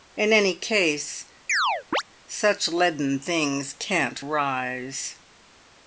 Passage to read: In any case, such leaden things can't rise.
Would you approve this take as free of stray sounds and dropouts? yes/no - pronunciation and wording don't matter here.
no